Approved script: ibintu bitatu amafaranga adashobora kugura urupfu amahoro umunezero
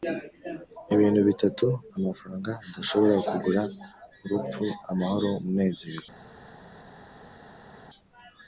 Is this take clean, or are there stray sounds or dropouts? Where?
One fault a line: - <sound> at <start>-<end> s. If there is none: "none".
none